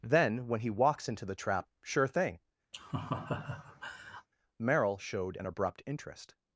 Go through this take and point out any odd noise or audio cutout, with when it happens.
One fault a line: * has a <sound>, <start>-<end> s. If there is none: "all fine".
* has a laugh, 2.7-4.3 s